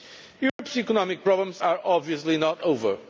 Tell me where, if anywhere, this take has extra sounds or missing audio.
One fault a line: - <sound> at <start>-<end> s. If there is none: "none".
- dropout at 0.5-0.6 s